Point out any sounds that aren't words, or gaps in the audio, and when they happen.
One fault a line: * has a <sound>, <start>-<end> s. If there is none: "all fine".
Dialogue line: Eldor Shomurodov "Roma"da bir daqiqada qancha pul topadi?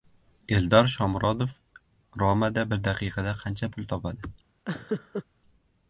* has a laugh, 4.7-5.2 s